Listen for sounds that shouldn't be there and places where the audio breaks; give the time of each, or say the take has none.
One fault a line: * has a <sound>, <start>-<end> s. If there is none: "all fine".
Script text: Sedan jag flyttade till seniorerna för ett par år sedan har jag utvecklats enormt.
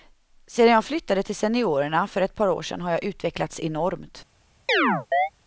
* has a chirp, 4.7-5.3 s